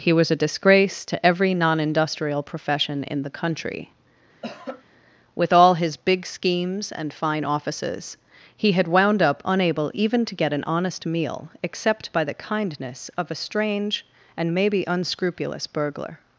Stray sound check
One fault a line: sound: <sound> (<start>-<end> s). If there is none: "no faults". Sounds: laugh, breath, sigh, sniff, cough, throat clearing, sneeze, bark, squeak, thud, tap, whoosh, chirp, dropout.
sound: cough (4.4-4.8 s)